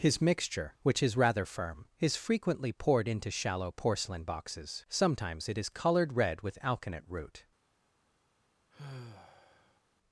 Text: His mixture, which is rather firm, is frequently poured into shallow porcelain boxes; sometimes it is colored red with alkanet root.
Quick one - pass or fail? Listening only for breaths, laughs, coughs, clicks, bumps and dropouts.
fail